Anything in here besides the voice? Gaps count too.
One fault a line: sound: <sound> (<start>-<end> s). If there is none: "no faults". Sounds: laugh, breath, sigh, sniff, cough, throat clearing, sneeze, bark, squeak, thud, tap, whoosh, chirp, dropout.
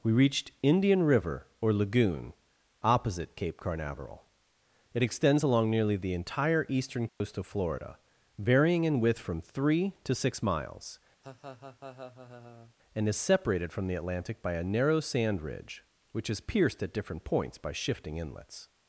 sound: dropout (7.1-7.2 s)
sound: laugh (11.2-12.7 s)